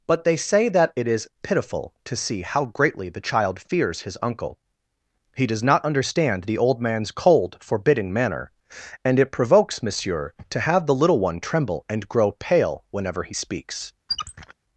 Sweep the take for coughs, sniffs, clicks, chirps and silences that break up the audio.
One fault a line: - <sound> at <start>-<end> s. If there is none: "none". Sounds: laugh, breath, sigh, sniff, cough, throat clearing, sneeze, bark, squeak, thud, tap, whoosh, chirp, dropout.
- squeak at 14.1-14.5 s